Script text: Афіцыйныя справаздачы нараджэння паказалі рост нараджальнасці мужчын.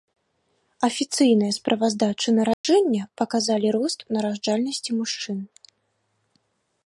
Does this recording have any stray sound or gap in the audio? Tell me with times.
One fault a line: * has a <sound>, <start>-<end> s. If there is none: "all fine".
* has a dropout, 2.5-2.6 s